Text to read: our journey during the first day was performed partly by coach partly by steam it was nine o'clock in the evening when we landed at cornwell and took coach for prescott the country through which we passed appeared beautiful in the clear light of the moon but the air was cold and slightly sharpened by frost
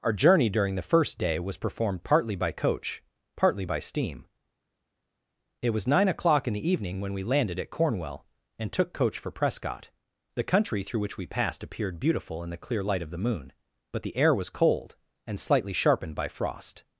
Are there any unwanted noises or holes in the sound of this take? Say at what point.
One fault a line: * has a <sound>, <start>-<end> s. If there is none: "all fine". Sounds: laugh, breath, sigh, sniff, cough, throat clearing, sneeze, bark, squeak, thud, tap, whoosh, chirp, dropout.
all fine